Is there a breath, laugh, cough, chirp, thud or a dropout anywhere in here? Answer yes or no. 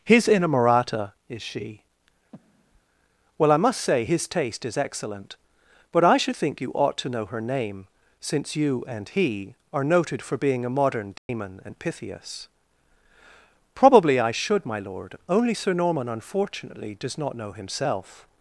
yes